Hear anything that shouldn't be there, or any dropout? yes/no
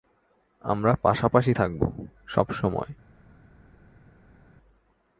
no